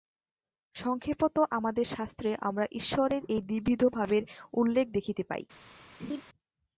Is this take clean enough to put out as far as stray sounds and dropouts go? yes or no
no